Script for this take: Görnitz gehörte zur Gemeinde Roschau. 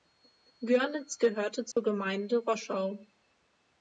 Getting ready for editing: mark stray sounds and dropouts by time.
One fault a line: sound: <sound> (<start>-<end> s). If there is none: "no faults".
sound: dropout (1.7-1.8 s)